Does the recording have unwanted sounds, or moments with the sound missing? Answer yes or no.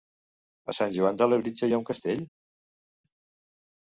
no